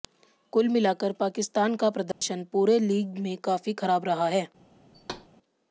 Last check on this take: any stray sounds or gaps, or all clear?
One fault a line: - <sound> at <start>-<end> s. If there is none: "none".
- dropout at 2.1-2.2 s
- thud at 4.9-5.3 s